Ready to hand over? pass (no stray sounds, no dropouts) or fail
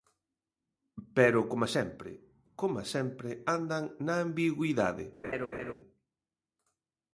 fail